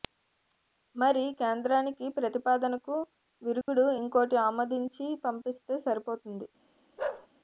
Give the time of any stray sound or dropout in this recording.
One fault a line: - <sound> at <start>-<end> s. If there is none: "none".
- dropout at 3.6-3.7 s
- bark at 7.0-7.3 s